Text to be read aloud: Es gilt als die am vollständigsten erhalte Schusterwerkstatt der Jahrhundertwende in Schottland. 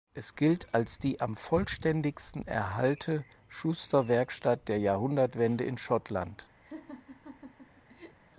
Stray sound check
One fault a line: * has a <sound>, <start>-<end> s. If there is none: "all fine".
* has a laugh, 6.6-8.2 s